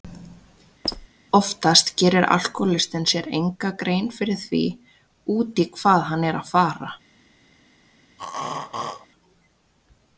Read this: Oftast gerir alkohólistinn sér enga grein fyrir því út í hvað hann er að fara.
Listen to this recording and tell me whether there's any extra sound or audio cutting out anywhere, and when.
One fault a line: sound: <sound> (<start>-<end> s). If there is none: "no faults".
sound: squeak (0.8-1.1 s)
sound: throat clearing (8.2-9.1 s)